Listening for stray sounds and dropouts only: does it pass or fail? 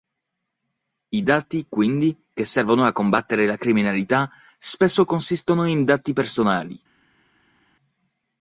pass